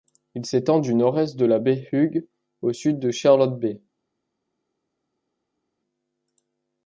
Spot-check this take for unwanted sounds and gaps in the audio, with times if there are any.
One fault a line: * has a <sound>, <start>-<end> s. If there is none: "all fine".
all fine